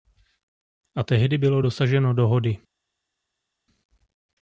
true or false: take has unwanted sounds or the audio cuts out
false